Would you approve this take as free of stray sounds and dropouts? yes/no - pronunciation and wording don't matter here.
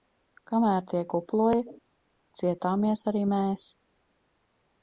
yes